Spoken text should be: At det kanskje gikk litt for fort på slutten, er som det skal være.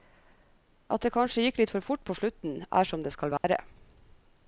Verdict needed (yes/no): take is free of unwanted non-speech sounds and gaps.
no